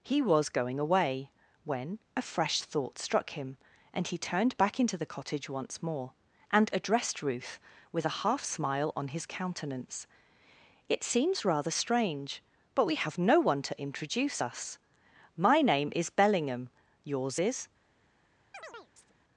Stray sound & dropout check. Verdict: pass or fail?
fail